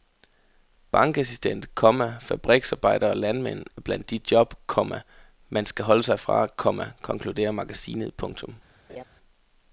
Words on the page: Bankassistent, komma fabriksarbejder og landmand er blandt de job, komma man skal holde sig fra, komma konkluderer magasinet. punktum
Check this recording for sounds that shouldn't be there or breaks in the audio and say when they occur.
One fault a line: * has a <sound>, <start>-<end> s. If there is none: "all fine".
* has a laugh, 8.9-9.0 s